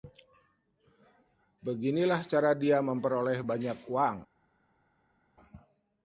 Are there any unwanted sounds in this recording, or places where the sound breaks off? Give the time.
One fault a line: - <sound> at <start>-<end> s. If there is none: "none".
none